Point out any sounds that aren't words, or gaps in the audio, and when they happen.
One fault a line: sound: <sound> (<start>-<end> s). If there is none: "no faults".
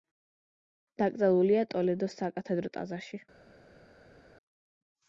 no faults